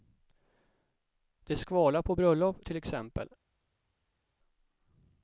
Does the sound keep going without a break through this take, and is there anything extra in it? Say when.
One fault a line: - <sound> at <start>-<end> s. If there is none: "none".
none